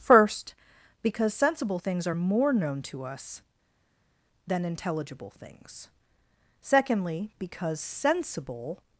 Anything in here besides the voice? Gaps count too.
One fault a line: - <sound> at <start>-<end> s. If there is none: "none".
none